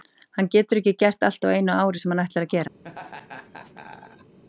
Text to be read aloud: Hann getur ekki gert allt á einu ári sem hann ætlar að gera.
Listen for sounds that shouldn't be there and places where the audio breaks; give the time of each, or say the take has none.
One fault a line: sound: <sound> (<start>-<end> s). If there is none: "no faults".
sound: laugh (2.8-4.4 s)